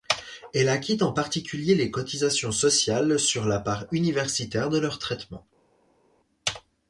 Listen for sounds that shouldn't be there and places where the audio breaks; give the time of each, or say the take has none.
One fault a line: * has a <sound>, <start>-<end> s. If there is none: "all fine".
all fine